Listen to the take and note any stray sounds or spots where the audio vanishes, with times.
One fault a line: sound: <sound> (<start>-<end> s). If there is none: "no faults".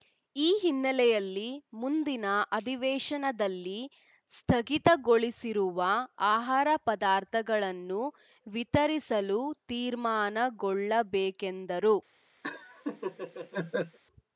sound: laugh (12.4-14.0 s)